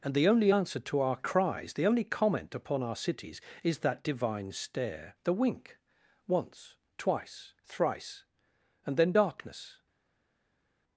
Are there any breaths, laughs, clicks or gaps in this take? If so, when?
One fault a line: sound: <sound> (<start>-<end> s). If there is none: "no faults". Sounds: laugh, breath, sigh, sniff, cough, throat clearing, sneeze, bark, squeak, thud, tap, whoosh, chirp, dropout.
no faults